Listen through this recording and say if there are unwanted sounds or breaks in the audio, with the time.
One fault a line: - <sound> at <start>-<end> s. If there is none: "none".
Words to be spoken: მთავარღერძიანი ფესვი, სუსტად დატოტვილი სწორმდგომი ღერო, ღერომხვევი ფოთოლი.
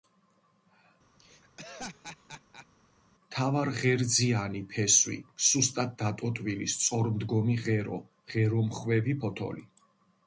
- laugh at 1.2-2.7 s